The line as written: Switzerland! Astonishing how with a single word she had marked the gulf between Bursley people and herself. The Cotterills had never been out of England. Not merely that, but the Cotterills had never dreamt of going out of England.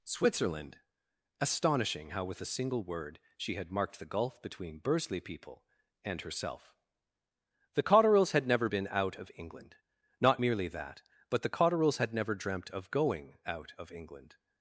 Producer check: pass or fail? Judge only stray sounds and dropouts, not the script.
pass